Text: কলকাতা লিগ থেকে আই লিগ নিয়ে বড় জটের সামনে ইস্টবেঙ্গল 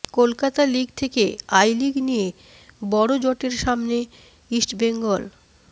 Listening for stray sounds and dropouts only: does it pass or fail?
pass